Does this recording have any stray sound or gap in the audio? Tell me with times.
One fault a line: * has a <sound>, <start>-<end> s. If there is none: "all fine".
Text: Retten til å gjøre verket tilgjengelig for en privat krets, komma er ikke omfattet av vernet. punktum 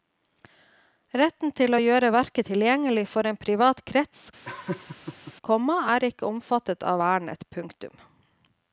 * has a laugh, 4.4-5.3 s